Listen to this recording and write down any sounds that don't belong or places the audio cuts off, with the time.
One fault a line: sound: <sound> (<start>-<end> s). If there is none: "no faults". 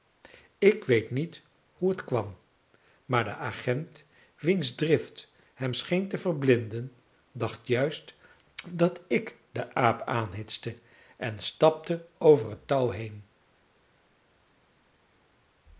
no faults